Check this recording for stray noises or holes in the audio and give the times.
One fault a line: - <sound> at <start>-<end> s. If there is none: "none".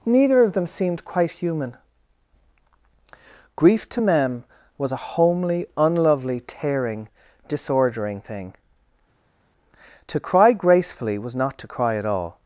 none